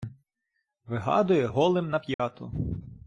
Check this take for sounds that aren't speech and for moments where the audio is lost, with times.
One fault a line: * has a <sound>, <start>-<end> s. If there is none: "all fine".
* has a dropout, 2.1-2.2 s